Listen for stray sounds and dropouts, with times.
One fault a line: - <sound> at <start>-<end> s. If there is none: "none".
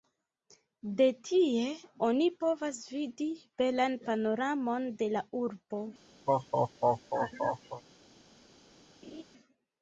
- laugh at 6.3-7.8 s
- laugh at 9.0-9.2 s